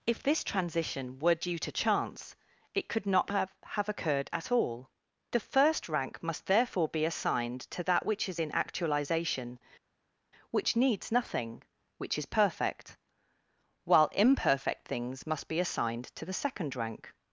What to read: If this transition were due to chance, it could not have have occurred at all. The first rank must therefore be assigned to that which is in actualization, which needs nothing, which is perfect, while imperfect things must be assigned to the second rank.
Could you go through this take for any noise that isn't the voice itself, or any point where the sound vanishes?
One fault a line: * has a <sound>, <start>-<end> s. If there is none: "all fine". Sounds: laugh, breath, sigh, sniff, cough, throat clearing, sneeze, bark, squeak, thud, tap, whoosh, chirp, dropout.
all fine